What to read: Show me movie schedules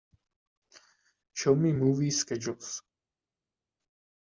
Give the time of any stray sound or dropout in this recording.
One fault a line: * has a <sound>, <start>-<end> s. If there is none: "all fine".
all fine